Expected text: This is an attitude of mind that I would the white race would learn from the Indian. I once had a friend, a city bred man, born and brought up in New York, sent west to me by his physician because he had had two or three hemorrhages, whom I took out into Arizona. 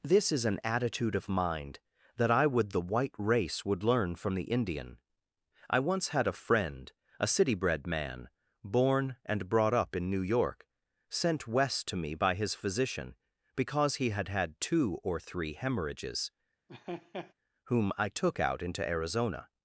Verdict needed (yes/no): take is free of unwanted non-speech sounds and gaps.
no